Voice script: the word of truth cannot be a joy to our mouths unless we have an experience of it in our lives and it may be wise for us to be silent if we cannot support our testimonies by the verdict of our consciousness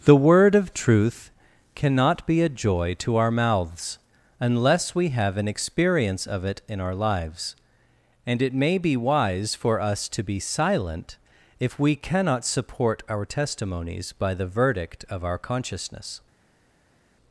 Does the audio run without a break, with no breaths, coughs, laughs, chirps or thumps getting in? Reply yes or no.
yes